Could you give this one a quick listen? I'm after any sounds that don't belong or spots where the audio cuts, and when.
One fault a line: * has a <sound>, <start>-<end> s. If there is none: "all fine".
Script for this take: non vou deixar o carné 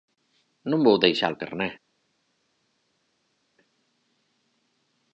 all fine